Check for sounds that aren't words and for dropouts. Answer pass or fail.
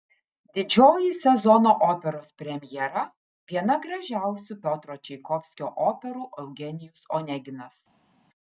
pass